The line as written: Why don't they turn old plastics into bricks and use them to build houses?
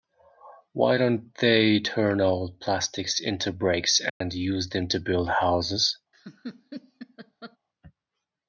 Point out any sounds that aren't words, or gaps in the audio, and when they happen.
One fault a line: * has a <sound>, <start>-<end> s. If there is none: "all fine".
* has a dropout, 4.1-4.2 s
* has a laugh, 6.1-7.6 s